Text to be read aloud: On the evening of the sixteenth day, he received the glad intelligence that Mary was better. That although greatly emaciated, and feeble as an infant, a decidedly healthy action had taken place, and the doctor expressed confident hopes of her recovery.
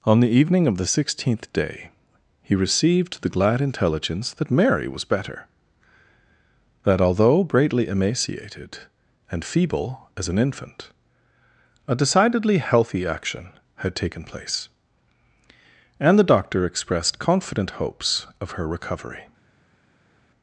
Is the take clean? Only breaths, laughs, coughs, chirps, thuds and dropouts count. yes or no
yes